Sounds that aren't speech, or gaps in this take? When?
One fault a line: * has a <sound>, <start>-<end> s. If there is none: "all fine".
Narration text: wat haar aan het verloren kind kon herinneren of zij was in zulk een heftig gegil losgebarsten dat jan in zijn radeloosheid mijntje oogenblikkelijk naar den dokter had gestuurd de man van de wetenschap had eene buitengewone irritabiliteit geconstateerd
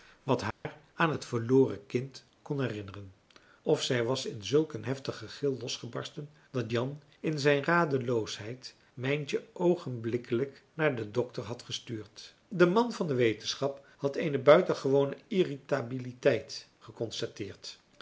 * has a dropout, 0.5-0.7 s